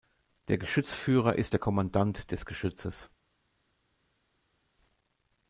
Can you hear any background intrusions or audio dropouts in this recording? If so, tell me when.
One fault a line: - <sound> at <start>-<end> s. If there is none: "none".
none